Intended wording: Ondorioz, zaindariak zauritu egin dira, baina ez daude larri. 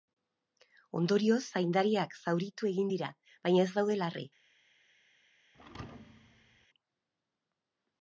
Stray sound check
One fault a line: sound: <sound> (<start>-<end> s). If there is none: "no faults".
sound: thud (5.5-6.7 s)